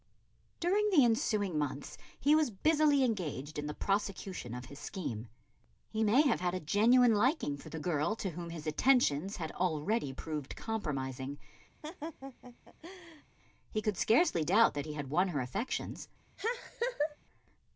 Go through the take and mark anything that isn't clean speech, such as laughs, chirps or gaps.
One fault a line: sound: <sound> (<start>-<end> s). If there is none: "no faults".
sound: laugh (11.8-13.2 s)
sound: laugh (16.4-17.2 s)